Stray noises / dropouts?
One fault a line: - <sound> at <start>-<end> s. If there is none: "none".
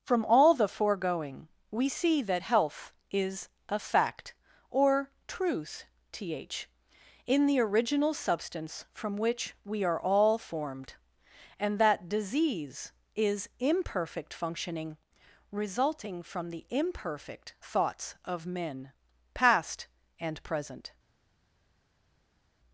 none